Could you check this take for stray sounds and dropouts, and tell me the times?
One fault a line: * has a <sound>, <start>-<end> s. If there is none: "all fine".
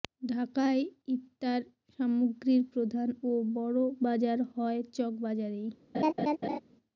* has a laugh, 5.9-6.6 s